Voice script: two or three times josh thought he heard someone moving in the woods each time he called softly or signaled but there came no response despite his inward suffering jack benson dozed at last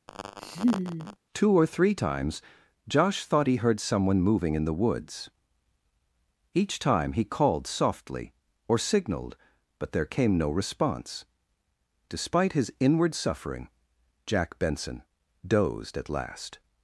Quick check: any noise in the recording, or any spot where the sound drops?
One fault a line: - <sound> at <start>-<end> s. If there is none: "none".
- laugh at 0.1-1.2 s